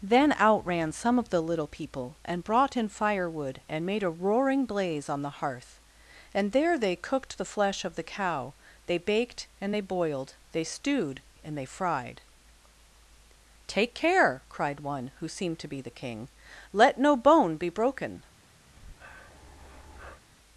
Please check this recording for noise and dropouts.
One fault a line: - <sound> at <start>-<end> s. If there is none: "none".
- breath at 18.7-20.2 s